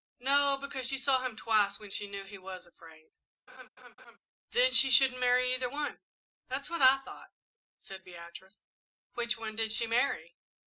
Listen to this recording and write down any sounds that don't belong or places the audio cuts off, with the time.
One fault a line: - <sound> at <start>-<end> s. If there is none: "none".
- laugh at 3.5-4.2 s